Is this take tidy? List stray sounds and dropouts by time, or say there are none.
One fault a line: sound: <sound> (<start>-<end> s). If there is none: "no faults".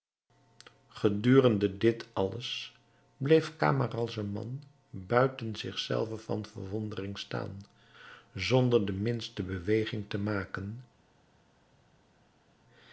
no faults